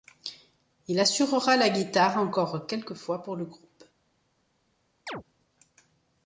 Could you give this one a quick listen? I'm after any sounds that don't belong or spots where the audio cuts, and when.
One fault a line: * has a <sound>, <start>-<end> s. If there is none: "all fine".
* has a chirp, 5.1-5.2 s